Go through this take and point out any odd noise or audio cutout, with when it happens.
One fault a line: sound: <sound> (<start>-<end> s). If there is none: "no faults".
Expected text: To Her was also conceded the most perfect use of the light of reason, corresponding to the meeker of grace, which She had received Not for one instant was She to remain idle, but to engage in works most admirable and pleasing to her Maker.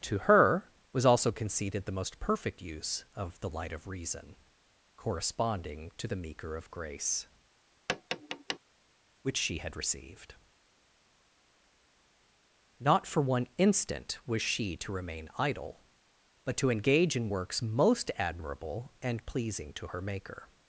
sound: tap (7.9-8.6 s)